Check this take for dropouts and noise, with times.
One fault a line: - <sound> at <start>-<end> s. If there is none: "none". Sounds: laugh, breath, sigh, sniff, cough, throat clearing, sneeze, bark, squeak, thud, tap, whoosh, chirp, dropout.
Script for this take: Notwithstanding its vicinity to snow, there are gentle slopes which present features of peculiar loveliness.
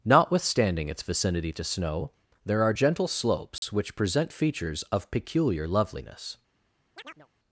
- dropout at 3.6-3.6 s
- chirp at 6.9-7.3 s